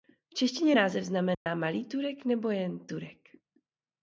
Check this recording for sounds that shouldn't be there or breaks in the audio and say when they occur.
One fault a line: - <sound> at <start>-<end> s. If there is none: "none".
- dropout at 1.3-1.5 s